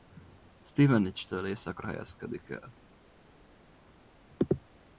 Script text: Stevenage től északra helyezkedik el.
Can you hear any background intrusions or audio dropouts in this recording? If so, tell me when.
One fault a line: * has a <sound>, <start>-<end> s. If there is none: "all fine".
all fine